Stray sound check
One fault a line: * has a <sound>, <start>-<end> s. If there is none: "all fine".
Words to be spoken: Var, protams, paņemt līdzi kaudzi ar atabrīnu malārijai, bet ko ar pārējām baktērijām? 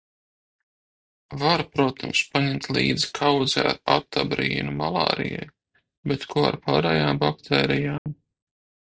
* has a dropout, 8.0-8.1 s